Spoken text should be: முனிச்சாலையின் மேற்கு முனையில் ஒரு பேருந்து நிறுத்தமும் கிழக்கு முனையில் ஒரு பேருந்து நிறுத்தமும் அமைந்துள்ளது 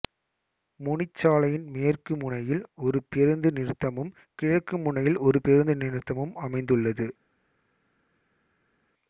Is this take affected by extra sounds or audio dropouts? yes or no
no